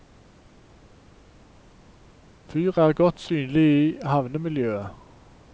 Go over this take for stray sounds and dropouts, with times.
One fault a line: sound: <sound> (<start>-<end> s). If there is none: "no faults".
no faults